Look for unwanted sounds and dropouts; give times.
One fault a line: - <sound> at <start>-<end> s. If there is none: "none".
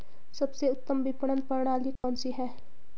- dropout at 2.0-2.0 s